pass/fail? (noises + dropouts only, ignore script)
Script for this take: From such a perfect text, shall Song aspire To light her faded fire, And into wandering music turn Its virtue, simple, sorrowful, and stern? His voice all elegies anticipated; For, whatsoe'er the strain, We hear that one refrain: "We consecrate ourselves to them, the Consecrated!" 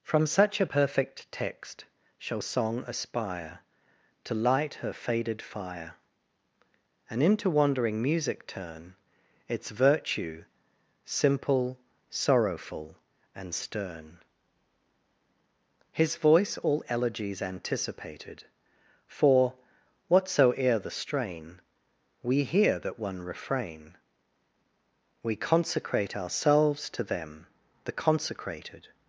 pass